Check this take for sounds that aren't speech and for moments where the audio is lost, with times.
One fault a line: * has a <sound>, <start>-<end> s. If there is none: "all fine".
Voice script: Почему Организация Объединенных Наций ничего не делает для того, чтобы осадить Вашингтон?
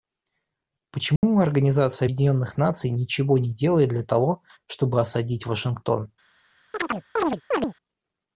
* has a dropout, 1.2-1.2 s
* has a chirp, 6.7-7.7 s